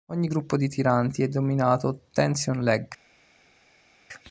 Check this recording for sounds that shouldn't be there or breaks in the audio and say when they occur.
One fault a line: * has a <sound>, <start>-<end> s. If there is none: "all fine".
all fine